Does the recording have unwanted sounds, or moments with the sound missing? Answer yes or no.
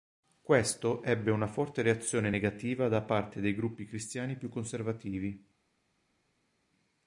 no